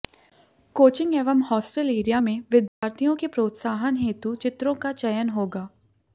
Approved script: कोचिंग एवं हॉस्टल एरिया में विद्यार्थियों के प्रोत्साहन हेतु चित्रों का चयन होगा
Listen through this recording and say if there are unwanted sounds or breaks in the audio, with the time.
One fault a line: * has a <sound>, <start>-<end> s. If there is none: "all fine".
* has a dropout, 2.7-2.8 s